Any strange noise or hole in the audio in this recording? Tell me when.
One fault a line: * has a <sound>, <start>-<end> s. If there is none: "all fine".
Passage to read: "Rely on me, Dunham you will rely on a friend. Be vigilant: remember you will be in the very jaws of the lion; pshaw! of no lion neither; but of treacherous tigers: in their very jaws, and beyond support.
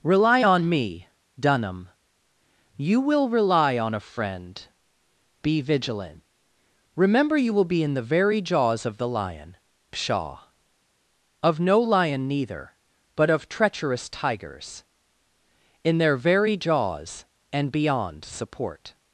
all fine